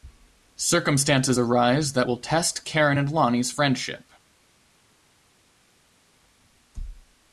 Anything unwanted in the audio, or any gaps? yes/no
no